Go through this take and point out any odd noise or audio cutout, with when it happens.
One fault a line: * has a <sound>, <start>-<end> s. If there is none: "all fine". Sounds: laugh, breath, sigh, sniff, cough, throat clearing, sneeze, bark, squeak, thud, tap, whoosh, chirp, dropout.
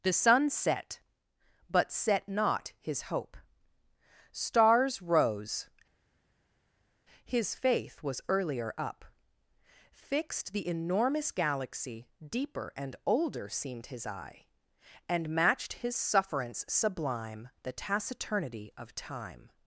all fine